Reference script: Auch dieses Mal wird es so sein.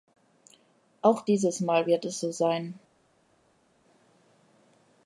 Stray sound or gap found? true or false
false